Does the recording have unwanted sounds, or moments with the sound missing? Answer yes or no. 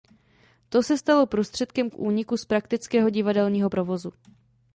no